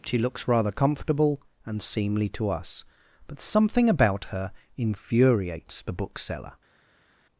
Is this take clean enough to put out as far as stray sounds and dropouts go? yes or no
yes